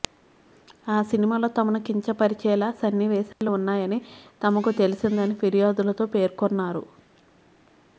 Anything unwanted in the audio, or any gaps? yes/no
yes